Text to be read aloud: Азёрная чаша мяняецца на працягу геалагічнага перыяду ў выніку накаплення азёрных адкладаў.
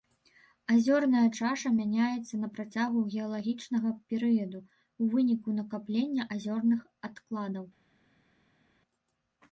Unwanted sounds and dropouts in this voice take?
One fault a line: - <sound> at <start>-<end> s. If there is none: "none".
none